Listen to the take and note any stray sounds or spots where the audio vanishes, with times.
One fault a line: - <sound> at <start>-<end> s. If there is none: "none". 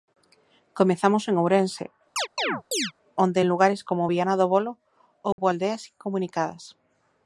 - chirp at 2.2-2.9 s
- dropout at 5.3-5.4 s